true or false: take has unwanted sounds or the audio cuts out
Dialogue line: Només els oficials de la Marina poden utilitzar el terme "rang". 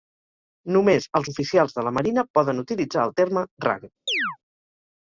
true